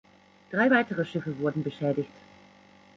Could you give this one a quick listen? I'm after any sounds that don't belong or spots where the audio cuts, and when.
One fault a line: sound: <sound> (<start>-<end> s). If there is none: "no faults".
no faults